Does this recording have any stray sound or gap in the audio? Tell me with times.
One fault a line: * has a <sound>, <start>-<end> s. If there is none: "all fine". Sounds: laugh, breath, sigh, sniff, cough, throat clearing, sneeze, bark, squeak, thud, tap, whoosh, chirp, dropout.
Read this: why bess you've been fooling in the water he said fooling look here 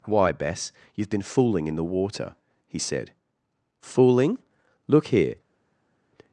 all fine